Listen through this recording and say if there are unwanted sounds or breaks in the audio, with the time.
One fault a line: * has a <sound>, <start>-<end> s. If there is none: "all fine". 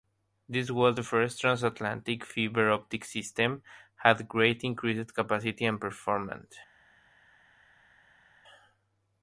all fine